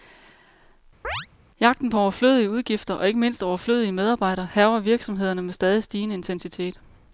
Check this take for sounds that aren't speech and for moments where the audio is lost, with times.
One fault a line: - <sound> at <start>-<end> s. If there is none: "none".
- chirp at 1.0-1.3 s